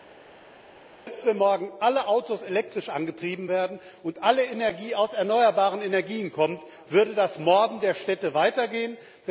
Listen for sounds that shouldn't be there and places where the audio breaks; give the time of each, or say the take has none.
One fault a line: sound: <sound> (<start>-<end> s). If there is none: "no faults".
no faults